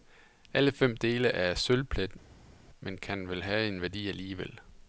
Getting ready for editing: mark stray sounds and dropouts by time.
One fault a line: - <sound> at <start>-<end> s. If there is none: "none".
none